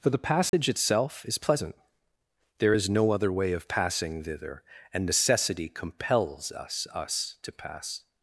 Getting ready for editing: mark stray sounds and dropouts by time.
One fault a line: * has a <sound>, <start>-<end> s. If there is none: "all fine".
* has a dropout, 0.5-0.5 s